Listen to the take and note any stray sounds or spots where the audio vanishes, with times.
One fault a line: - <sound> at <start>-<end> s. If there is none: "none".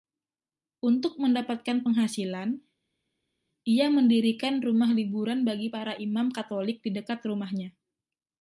none